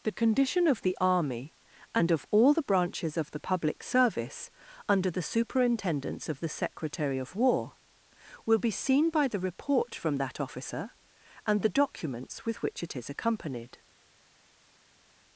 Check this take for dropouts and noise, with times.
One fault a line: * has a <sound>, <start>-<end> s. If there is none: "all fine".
all fine